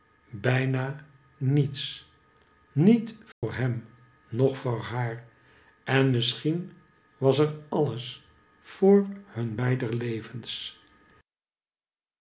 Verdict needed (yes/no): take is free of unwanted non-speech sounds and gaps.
no